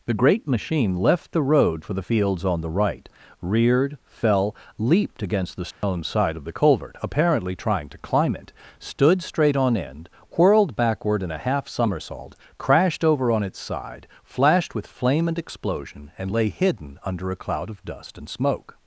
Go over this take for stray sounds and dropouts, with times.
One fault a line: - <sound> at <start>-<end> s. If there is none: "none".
- dropout at 5.7-5.8 s